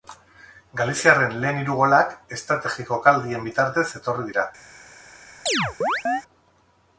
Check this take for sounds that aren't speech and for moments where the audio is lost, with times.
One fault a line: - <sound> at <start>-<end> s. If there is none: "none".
- chirp at 5.5-6.2 s